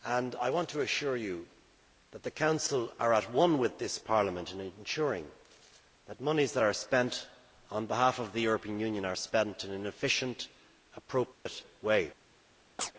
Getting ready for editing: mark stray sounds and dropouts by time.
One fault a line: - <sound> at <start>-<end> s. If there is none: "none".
- dropout at 11.3-11.5 s
- chirp at 12.8-12.9 s